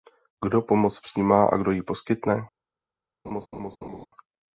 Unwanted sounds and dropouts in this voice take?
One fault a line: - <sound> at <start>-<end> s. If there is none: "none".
- laugh at 3.2-4.1 s